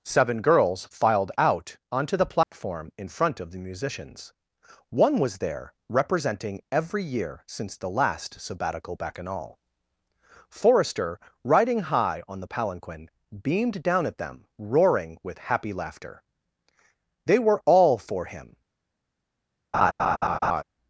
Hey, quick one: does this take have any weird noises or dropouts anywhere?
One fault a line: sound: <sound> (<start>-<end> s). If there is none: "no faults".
sound: dropout (2.4-2.5 s)
sound: laugh (19.7-20.6 s)